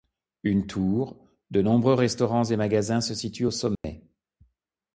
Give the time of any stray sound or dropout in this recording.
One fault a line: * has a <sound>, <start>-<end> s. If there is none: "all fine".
* has a dropout, 3.8-3.8 s